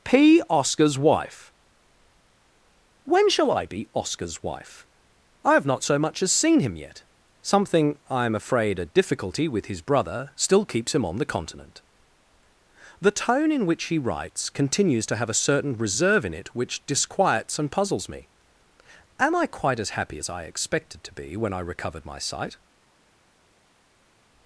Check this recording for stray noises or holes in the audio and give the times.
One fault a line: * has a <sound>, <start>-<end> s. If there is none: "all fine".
all fine